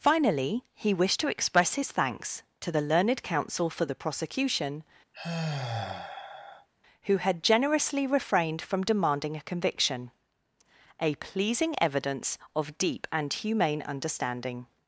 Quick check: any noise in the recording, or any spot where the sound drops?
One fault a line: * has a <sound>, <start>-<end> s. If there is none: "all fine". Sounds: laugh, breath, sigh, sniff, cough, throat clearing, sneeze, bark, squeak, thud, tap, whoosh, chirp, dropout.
* has a sigh, 5.1-6.7 s